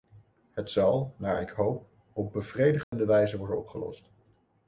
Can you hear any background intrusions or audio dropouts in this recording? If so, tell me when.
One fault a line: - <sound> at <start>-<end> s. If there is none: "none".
- dropout at 2.8-2.9 s